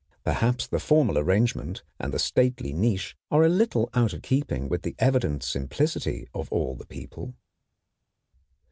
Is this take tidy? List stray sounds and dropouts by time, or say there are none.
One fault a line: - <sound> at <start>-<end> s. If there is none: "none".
none